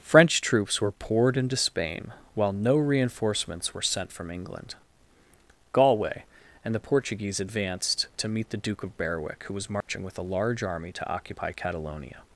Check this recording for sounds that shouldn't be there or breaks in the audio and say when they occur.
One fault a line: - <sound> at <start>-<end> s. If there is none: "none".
- dropout at 9.8-9.9 s